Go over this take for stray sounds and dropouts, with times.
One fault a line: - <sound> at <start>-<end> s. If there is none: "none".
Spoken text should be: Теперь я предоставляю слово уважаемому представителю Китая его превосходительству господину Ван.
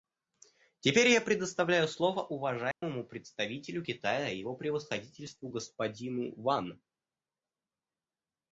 - dropout at 2.7-2.8 s